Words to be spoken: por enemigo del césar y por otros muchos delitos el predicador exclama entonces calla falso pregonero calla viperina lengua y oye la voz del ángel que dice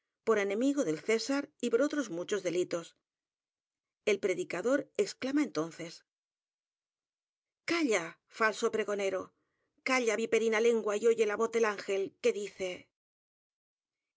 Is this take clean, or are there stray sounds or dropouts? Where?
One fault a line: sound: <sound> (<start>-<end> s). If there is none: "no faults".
no faults